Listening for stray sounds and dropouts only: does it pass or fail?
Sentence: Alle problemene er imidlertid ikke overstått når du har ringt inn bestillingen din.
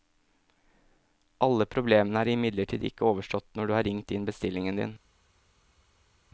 pass